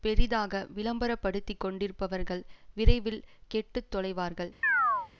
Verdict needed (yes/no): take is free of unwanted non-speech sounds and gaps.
no